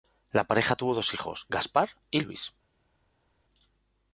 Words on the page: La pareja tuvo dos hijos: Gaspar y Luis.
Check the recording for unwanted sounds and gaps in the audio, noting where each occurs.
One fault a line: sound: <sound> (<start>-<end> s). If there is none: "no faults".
no faults